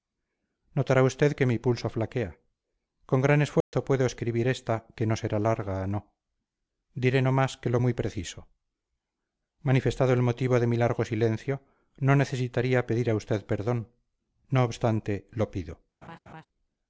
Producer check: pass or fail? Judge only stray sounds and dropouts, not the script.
fail